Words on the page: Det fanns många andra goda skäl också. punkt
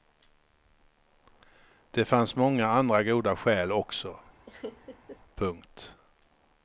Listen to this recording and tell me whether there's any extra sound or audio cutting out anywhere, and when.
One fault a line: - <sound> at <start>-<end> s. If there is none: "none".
- laugh at 4.5-5.2 s